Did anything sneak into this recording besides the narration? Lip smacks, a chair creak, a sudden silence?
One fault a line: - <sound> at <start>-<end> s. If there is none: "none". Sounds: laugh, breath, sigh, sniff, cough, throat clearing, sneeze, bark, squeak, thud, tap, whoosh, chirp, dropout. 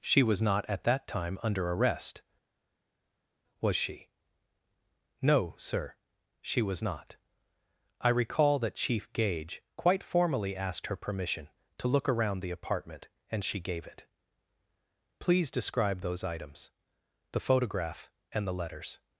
none